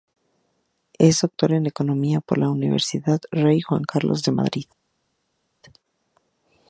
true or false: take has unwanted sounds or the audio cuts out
false